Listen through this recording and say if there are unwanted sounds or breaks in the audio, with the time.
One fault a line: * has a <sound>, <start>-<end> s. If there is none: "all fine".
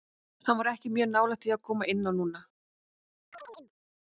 * has a chirp, 3.3-3.7 s